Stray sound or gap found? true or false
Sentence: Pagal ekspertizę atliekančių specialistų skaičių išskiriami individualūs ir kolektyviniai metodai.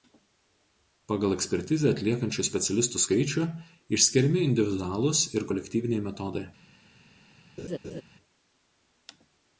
true